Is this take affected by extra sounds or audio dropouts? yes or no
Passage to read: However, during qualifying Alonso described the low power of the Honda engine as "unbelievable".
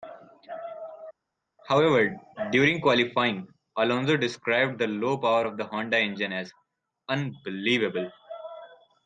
no